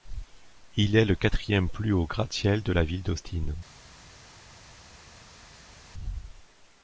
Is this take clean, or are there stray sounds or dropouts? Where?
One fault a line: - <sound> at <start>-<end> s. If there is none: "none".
none